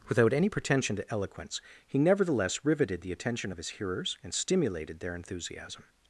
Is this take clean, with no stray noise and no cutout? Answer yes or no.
yes